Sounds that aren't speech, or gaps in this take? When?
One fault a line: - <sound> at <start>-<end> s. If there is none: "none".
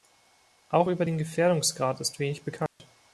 - dropout at 2.7-2.8 s